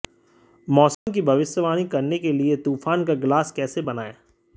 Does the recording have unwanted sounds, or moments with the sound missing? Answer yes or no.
yes